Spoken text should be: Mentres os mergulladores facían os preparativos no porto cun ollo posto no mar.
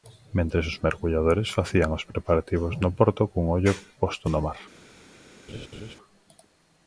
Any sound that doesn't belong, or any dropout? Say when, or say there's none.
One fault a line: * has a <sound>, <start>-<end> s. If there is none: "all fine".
* has a laugh, 5.5-6.0 s